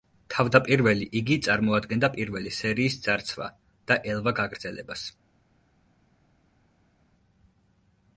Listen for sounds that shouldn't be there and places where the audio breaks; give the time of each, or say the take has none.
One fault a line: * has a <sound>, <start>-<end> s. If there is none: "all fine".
all fine